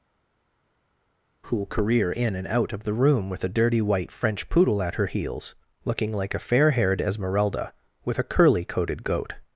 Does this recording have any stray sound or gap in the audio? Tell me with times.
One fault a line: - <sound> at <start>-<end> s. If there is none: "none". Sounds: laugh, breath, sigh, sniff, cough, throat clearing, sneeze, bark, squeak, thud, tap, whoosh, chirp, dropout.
none